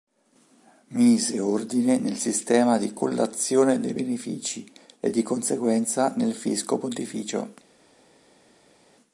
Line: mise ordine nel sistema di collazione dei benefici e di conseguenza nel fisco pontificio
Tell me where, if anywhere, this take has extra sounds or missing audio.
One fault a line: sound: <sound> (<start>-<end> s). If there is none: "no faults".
no faults